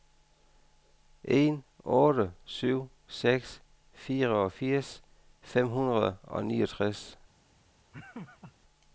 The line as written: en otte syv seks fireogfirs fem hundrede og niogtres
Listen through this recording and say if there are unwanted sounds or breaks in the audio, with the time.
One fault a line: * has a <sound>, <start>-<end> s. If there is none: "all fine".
* has a laugh, 7.9-8.5 s